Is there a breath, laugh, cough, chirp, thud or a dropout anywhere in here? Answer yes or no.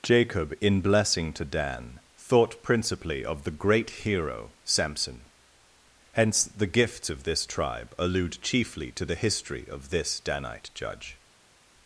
no